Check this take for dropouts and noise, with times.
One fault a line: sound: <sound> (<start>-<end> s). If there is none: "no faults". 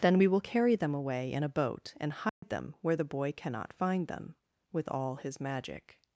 sound: dropout (2.3-2.4 s)